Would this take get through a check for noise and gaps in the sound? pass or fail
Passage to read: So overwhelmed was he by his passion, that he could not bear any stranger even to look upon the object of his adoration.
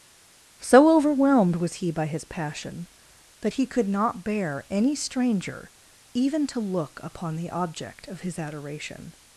pass